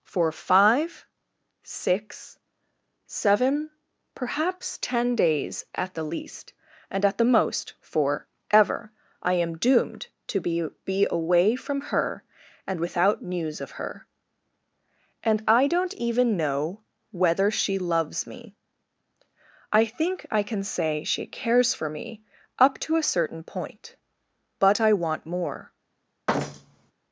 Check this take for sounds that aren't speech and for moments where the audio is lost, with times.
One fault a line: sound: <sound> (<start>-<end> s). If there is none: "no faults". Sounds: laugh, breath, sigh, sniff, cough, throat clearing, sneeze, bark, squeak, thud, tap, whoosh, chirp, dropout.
sound: thud (26.3-26.9 s)